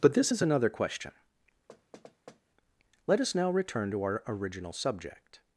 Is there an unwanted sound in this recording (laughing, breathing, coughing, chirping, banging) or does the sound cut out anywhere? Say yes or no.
yes